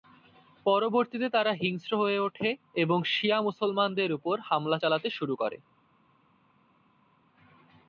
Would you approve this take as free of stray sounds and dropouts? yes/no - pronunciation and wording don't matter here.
yes